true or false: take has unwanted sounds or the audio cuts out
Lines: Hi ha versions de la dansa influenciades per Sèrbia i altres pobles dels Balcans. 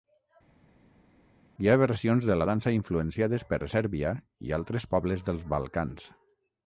false